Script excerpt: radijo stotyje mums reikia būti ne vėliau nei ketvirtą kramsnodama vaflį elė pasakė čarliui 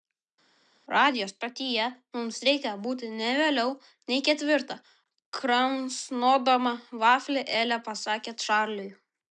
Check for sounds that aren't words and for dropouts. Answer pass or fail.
pass